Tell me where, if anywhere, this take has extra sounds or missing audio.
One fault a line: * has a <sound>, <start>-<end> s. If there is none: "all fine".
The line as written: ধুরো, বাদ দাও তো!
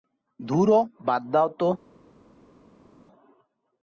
all fine